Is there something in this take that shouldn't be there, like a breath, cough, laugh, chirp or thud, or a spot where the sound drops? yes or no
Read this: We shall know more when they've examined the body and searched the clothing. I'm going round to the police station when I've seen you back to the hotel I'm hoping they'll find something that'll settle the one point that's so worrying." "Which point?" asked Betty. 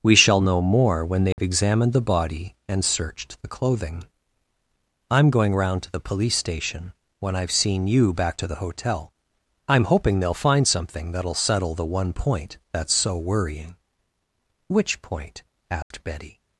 yes